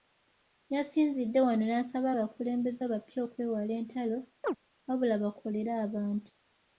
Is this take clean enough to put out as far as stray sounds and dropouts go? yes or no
no